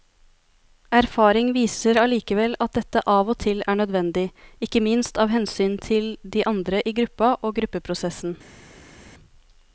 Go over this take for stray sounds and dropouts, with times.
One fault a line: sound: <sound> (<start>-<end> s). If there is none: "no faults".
no faults